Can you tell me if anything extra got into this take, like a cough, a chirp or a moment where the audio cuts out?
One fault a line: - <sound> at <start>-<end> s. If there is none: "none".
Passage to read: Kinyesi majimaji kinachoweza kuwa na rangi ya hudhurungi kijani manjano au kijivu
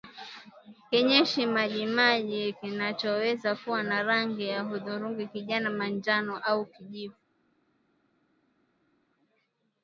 none